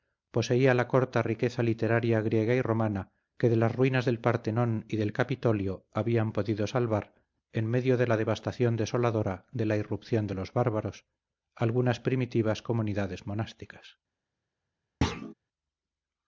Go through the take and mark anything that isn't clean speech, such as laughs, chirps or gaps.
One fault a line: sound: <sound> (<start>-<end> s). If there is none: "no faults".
sound: thud (15.0-15.3 s)